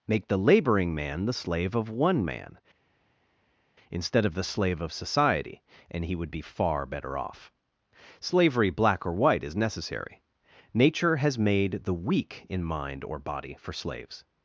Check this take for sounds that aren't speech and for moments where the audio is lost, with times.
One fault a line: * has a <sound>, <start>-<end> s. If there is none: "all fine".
all fine